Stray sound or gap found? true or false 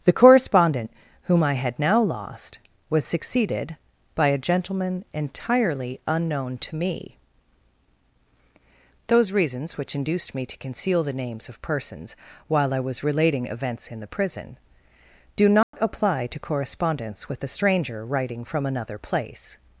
true